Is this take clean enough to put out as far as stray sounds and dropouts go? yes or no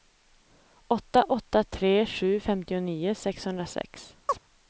no